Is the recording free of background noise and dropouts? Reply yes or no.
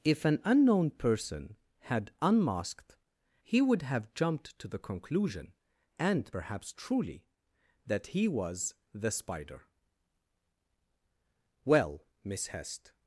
yes